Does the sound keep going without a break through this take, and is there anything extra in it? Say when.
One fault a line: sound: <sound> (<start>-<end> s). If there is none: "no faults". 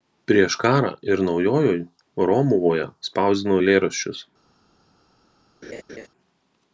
sound: laugh (5.6-6.1 s)